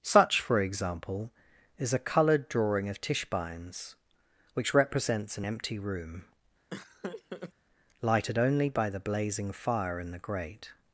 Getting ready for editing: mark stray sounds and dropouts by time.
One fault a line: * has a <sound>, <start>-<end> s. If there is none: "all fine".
* has a laugh, 6.7-7.5 s